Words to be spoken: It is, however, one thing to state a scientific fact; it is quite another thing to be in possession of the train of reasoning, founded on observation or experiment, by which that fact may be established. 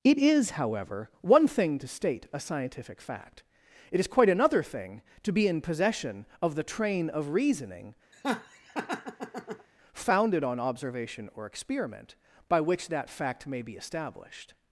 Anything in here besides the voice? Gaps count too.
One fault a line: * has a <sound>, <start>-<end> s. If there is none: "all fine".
* has a laugh, 8.1-9.7 s